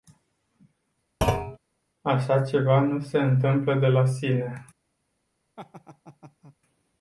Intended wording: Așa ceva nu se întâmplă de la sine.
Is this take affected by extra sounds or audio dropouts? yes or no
yes